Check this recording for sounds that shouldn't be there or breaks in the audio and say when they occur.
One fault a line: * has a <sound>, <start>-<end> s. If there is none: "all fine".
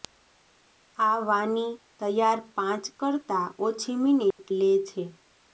* has a dropout, 4.3-4.4 s